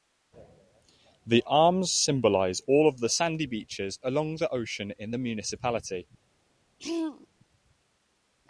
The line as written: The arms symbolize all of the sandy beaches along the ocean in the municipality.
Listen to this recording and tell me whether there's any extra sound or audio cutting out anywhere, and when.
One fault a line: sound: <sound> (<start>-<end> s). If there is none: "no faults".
sound: throat clearing (6.8-7.3 s)